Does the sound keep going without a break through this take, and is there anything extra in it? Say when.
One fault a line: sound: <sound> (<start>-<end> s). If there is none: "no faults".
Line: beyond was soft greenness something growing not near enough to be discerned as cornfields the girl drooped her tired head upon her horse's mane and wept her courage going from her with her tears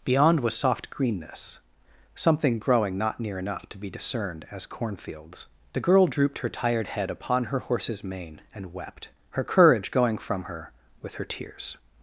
no faults